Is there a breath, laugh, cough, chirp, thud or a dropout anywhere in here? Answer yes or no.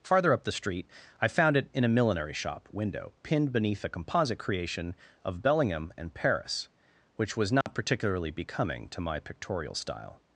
yes